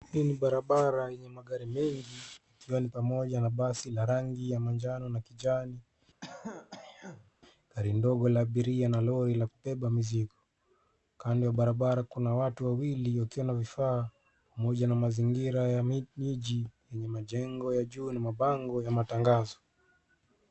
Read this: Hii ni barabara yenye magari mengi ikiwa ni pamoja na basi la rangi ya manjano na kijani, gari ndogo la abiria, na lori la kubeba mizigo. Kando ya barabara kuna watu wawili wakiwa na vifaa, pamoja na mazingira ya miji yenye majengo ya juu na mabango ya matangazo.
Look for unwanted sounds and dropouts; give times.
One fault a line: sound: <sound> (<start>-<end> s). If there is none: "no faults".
sound: throat clearing (6.2-7.3 s)